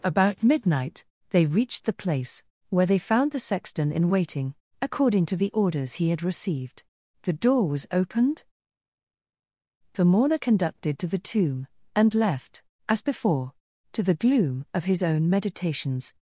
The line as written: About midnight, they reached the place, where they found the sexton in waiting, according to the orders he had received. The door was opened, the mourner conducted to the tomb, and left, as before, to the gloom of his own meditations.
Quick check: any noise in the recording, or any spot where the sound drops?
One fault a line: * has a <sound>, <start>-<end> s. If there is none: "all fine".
all fine